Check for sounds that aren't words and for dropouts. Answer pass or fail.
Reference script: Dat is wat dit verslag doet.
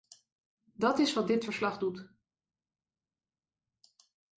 pass